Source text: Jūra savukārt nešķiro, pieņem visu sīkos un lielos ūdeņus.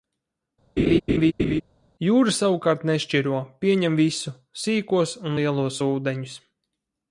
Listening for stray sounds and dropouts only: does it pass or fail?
fail